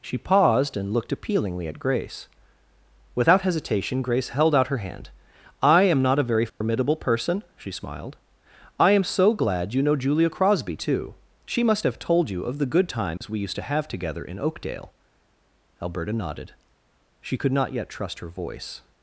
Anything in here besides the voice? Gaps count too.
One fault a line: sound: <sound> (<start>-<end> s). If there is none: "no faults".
sound: dropout (6.5-6.6 s)
sound: dropout (13.2-13.2 s)